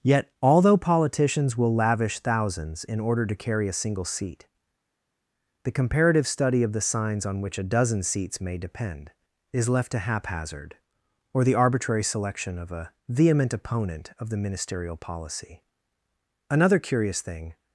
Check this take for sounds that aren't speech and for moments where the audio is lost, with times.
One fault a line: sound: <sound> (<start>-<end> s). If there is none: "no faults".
no faults